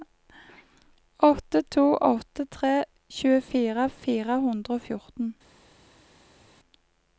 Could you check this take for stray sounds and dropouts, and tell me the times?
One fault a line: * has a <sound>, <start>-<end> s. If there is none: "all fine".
all fine